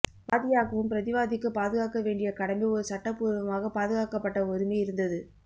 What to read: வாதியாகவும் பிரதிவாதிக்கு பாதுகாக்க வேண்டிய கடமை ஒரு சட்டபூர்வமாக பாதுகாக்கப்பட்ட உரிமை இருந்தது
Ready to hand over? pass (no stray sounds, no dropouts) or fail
pass